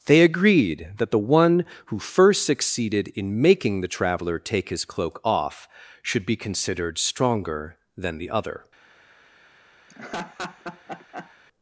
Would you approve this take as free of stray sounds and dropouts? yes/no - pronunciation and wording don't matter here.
no